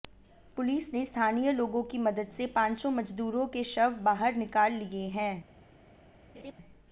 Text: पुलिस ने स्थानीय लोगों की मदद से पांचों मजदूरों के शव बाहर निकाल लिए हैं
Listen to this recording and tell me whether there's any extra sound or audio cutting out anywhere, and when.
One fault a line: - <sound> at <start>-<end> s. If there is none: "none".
- laugh at 6.3-6.5 s